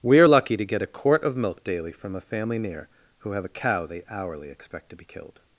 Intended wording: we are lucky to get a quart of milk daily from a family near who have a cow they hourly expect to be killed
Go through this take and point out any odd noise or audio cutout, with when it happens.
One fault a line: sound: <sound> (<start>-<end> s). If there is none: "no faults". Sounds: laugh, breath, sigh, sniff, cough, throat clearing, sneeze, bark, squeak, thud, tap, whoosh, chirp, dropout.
no faults